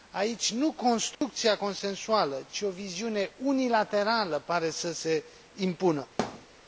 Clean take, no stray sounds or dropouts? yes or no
no